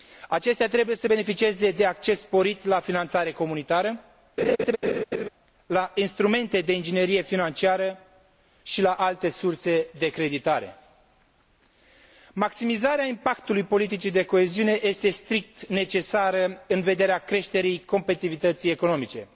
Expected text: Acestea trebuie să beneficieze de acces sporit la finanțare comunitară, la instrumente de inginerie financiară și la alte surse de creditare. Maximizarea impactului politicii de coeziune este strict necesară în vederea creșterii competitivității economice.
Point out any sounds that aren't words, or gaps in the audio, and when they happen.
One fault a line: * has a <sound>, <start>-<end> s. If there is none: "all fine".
* has a laugh, 4.4-5.3 s